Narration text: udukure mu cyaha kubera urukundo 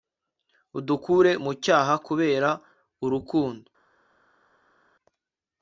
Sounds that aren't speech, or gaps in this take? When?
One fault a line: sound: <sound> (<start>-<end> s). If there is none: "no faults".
no faults